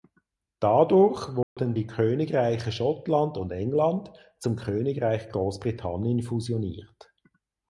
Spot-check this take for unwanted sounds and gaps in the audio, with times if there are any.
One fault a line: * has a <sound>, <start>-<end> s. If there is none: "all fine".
* has a dropout, 1.4-1.6 s